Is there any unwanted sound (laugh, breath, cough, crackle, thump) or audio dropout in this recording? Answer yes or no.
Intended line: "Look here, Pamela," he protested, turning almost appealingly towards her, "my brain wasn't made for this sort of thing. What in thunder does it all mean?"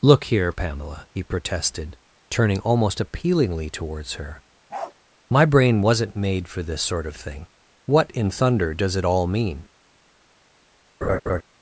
yes